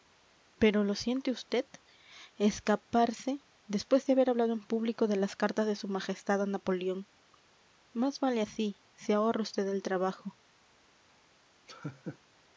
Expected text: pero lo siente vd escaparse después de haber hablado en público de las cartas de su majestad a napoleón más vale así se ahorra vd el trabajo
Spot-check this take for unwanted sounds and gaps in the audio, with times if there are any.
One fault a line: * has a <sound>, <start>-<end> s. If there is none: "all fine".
* has a laugh, 11.7-12.2 s